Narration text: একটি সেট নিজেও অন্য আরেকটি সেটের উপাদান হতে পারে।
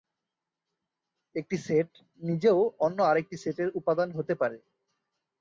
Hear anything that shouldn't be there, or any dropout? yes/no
no